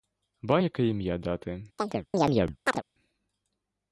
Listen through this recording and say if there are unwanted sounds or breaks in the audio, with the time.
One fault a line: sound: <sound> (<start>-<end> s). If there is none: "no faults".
sound: chirp (1.8-2.8 s)